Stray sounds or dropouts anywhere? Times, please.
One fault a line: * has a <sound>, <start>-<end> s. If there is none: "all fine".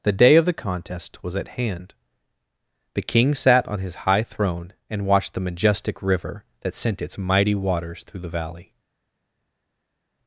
all fine